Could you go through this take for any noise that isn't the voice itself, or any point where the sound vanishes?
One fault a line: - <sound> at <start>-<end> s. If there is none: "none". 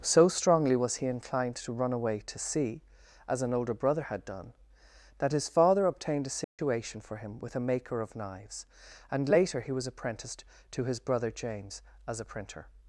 - dropout at 6.4-6.6 s